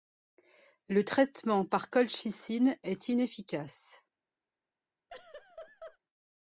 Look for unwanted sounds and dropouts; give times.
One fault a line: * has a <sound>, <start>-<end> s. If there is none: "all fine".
* has a laugh, 5.1-6.0 s